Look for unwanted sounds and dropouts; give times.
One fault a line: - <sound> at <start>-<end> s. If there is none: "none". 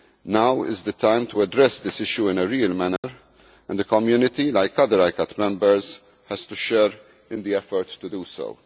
- dropout at 3.0-3.0 s